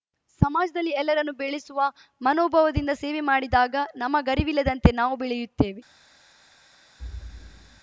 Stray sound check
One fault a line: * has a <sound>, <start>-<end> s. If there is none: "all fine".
* has a thud, 7.0-7.8 s